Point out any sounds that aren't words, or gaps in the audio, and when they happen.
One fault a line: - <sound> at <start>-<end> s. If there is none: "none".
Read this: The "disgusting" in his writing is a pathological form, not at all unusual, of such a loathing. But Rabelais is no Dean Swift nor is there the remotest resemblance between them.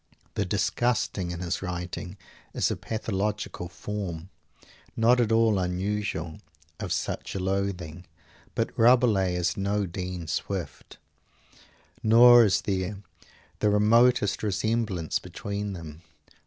none